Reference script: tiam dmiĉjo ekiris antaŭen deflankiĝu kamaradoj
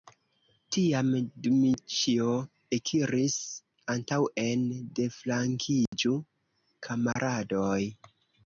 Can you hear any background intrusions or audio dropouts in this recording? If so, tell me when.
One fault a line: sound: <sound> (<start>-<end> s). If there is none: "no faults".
sound: dropout (5.9-5.9 s)
sound: dropout (7.1-7.2 s)